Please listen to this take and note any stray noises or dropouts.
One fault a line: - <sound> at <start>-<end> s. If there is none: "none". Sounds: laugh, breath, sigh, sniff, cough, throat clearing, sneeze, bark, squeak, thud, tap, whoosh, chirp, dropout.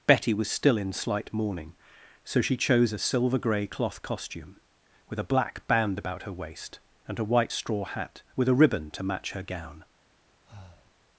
- breath at 10.5-11.0 s